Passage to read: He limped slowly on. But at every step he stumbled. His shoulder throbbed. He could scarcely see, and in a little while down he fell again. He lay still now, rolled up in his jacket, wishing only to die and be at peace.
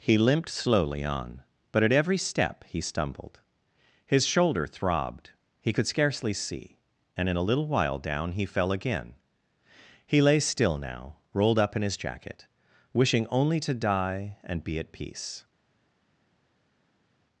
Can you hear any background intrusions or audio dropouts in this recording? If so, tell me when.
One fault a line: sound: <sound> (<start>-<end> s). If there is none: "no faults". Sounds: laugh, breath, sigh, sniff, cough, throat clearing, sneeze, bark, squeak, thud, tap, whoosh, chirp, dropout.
no faults